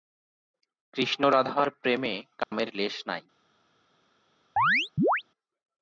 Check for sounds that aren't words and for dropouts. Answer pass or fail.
fail